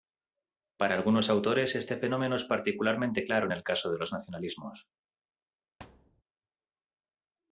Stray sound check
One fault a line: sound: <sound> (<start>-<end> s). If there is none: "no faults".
sound: thud (5.8-6.2 s)